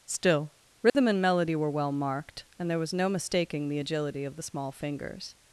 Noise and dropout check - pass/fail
fail